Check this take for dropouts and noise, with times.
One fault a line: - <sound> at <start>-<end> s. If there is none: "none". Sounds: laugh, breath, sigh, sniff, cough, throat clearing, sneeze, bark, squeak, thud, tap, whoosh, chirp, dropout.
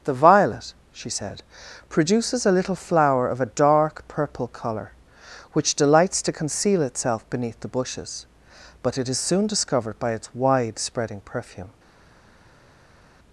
none